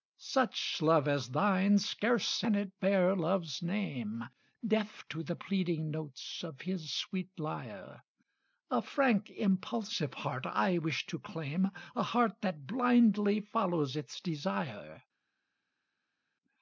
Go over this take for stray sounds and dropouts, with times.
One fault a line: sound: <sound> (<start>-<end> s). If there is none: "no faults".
no faults